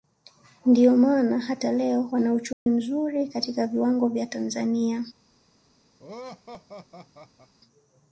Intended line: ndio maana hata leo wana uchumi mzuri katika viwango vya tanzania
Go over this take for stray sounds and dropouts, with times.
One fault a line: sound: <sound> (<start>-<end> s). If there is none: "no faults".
sound: dropout (2.5-2.7 s)
sound: laugh (6.0-7.5 s)